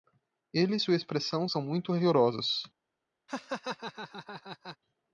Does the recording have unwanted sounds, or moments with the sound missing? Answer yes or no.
yes